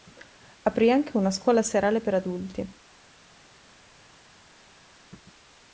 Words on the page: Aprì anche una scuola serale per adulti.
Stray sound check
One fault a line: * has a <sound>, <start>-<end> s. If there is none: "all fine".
all fine